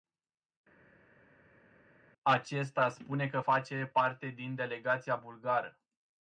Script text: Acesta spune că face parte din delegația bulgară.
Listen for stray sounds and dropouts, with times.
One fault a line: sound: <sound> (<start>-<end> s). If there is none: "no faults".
no faults